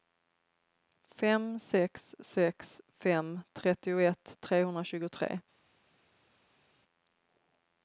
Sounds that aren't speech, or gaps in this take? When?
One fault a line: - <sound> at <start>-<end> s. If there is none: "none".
none